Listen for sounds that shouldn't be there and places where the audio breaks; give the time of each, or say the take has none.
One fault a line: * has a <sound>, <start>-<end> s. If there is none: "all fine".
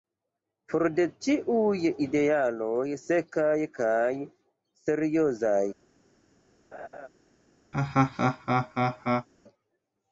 * has a laugh, 6.7-7.1 s
* has a laugh, 7.7-9.3 s